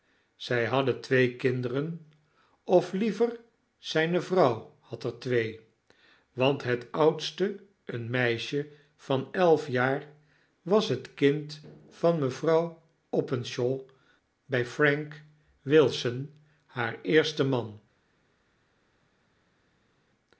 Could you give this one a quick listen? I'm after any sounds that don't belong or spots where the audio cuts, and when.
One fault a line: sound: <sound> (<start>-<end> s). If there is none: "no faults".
no faults